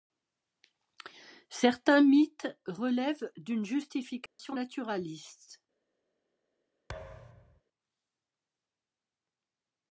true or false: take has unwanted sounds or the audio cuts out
true